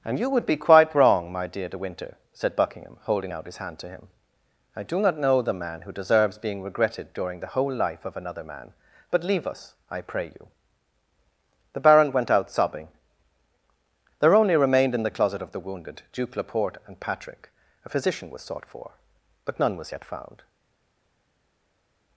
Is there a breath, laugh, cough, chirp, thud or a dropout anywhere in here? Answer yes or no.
no